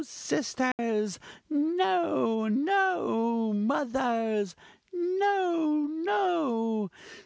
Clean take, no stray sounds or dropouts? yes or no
no